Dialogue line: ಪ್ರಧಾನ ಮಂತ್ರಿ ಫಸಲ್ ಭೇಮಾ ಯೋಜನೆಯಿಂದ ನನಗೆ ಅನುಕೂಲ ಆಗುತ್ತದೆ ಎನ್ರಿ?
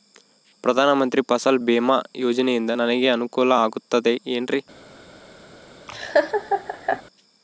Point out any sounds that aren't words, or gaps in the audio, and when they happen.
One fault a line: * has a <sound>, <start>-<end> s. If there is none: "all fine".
* has a laugh, 5.9-7.0 s